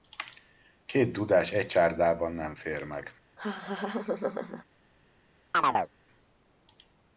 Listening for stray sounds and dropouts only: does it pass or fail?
fail